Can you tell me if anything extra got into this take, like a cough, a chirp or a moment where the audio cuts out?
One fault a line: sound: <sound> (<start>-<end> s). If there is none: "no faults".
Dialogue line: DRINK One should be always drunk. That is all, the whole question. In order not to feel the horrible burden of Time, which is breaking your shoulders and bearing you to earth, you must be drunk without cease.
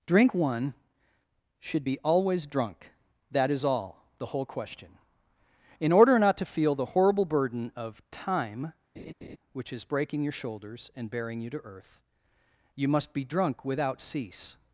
sound: laugh (9.0-9.4 s)